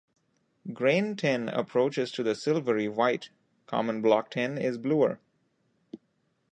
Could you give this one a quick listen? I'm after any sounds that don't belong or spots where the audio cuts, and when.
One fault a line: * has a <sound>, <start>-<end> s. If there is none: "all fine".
all fine